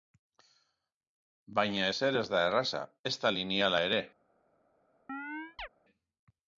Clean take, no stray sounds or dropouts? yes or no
no